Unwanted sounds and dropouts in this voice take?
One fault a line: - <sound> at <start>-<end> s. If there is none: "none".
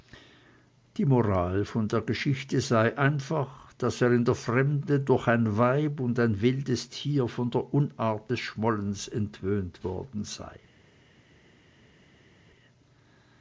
none